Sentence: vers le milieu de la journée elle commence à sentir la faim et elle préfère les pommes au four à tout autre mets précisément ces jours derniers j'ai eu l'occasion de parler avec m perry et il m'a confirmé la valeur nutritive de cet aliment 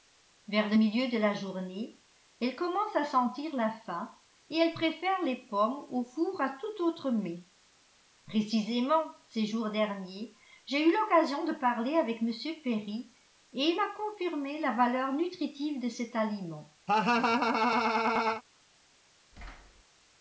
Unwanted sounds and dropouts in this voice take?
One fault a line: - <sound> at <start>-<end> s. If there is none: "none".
- laugh at 16.9-18.4 s
- thud at 19.3-19.8 s